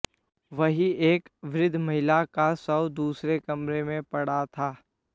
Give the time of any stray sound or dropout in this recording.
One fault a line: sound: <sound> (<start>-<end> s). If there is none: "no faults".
no faults